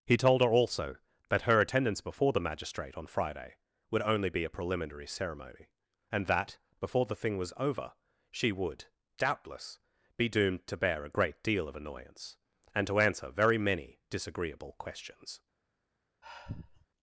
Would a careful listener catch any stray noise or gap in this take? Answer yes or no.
yes